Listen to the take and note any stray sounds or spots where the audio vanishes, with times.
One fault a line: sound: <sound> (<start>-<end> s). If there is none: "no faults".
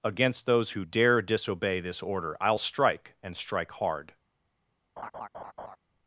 sound: laugh (5.0-5.8 s)